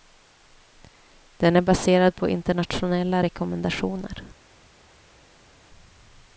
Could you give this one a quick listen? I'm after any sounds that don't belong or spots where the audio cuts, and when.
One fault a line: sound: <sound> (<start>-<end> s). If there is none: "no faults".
no faults